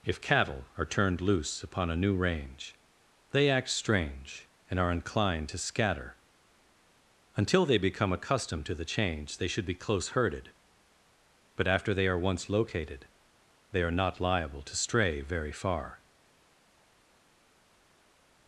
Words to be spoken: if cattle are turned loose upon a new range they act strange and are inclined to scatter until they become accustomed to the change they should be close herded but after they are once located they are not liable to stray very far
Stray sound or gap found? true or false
false